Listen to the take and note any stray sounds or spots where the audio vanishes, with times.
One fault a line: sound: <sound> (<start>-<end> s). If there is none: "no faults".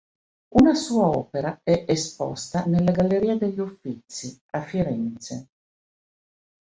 no faults